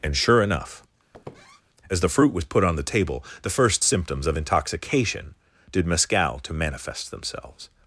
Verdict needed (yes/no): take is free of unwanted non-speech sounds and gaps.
no